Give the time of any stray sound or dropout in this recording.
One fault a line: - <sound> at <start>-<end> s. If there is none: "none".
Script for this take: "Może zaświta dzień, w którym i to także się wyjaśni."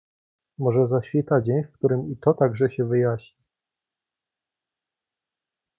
none